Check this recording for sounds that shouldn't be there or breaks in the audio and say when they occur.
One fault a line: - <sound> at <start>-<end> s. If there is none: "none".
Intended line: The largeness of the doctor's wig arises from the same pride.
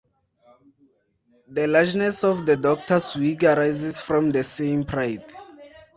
none